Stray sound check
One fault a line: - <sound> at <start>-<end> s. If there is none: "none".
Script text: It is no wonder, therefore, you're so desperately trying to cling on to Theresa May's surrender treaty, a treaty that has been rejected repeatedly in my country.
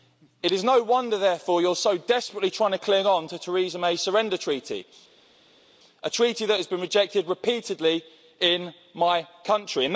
none